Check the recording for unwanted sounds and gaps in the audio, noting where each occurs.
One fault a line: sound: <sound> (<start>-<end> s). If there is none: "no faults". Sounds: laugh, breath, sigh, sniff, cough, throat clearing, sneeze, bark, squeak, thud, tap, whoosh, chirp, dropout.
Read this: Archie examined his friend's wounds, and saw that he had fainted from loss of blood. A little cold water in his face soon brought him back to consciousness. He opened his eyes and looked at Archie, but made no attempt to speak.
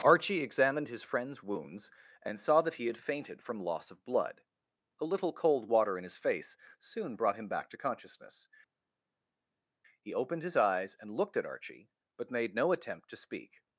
no faults